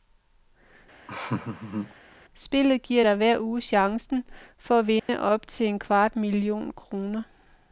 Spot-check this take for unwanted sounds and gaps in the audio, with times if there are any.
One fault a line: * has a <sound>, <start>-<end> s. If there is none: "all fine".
* has a laugh, 1.1-1.9 s
* has a dropout, 5.0-5.1 s